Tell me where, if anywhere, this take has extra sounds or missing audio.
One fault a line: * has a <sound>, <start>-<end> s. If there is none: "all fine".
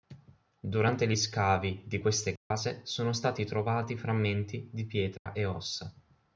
* has a dropout, 2.4-2.5 s
* has a dropout, 5.2-5.3 s